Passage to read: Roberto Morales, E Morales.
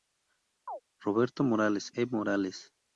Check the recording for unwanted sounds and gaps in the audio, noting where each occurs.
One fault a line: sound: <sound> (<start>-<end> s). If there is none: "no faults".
sound: chirp (0.7-0.8 s)